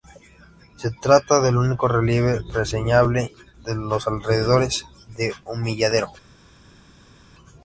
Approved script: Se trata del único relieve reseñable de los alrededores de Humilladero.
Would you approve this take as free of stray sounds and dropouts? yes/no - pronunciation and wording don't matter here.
yes